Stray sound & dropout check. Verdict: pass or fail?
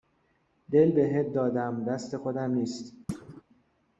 fail